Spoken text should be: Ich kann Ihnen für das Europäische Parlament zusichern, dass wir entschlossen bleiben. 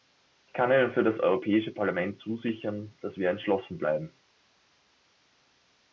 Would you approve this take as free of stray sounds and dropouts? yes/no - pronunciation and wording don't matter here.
yes